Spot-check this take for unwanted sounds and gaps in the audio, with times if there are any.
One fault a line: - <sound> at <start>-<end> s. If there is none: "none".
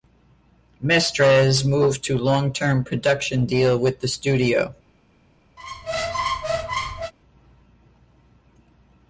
- squeak at 5.6-7.1 s